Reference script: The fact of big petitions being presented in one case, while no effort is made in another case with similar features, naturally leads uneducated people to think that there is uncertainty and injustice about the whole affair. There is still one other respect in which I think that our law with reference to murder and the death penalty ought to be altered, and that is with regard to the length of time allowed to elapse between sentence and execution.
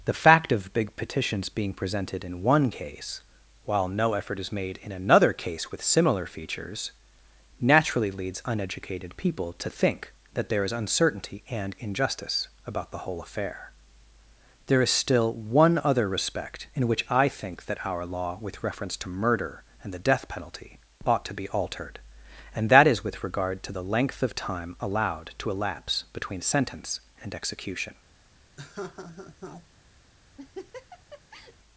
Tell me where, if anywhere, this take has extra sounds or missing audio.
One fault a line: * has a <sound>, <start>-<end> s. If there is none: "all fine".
* has a laugh, 28.6-29.7 s
* has a laugh, 30.4-31.6 s